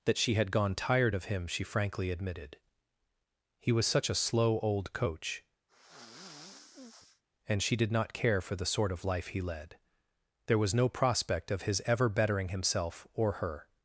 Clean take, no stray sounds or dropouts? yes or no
no